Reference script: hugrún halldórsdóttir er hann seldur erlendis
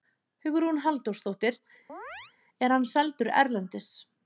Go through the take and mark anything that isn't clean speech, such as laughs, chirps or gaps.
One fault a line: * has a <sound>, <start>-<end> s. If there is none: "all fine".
* has a chirp, 1.9-2.3 s